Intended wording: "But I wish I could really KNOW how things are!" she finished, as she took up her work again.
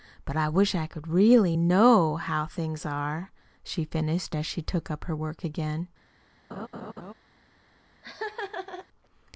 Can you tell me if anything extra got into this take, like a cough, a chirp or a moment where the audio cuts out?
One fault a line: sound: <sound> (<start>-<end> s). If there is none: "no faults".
sound: laugh (6.5-7.1 s)
sound: laugh (8.0-8.9 s)